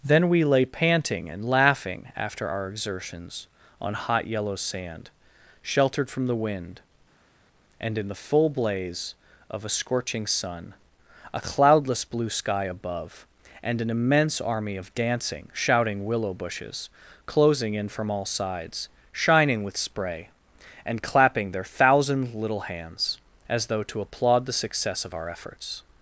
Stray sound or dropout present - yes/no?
no